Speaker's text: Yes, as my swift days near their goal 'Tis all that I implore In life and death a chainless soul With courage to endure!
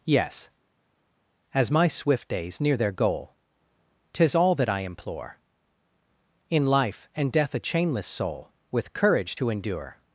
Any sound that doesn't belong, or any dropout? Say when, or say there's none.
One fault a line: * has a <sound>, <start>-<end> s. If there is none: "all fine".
all fine